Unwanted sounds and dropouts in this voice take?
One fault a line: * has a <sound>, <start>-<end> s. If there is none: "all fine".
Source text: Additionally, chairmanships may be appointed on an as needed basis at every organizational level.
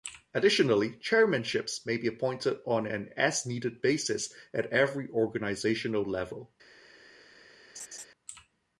* has a laugh, 7.8-8.1 s